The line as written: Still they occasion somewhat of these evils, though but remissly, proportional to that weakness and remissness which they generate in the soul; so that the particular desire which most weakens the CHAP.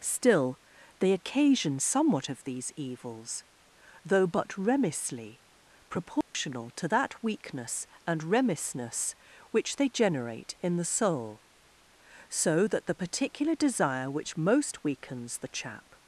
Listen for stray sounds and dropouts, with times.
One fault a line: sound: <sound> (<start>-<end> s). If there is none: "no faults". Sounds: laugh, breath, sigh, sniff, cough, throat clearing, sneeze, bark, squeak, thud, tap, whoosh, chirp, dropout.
sound: dropout (6.2-6.3 s)